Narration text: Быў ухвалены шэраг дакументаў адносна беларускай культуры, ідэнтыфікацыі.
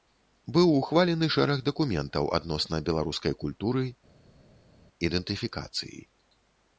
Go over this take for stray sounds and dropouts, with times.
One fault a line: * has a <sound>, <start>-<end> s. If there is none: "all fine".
all fine